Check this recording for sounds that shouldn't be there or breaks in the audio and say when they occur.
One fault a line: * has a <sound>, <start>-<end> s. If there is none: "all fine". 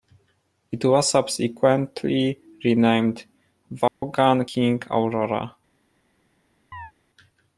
* has a dropout, 3.9-4.0 s
* has a chirp, 6.7-6.9 s